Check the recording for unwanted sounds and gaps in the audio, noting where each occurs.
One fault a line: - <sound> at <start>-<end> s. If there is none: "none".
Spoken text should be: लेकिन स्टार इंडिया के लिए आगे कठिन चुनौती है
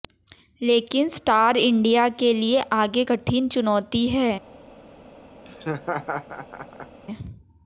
- laugh at 5.5-7.0 s